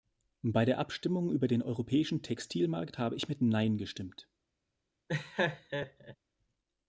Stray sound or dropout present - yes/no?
yes